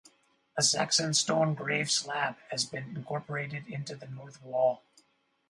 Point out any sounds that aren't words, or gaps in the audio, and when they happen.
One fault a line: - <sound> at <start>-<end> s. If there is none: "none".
none